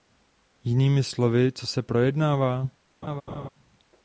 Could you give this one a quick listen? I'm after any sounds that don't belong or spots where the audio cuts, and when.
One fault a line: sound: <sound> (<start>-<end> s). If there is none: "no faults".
sound: laugh (3.0-3.5 s)